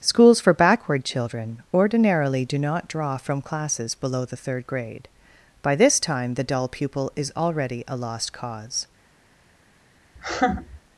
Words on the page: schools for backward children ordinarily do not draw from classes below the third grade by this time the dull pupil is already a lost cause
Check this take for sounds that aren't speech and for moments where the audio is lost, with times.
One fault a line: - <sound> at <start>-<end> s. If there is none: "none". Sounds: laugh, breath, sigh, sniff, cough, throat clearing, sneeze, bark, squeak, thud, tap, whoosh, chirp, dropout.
- laugh at 10.2-10.8 s